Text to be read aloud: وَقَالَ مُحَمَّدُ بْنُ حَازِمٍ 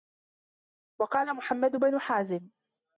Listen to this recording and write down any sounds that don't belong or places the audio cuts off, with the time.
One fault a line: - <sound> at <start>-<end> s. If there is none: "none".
none